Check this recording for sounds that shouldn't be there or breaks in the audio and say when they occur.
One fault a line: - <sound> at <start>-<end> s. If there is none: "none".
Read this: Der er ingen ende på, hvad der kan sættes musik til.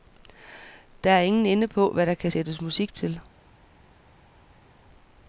none